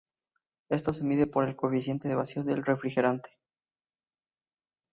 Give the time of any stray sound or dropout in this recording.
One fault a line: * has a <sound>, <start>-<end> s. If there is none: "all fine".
all fine